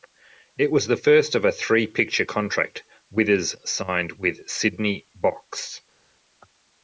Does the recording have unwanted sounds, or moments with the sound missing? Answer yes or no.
no